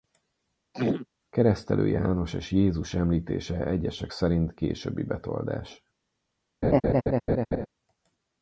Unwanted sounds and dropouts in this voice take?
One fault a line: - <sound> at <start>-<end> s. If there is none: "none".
- throat clearing at 0.7-1.1 s
- laugh at 6.6-7.7 s